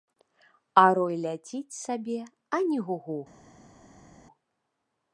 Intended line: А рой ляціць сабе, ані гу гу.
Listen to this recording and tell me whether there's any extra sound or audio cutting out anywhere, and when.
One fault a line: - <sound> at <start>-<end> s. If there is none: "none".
none